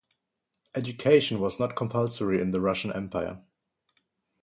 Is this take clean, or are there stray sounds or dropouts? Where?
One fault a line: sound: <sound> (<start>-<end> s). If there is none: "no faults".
no faults